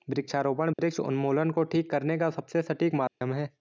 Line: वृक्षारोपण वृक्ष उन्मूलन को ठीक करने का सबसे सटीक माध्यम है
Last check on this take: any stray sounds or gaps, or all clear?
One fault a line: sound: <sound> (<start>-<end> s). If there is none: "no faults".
sound: dropout (0.7-0.8 s)
sound: dropout (3.1-3.2 s)